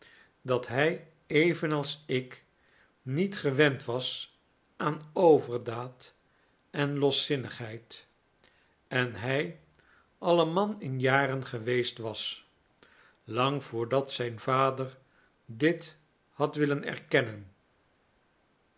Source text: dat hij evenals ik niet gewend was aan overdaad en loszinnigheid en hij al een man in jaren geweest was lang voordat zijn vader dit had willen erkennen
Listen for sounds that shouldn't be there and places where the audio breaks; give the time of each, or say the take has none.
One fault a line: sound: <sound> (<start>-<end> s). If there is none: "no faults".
no faults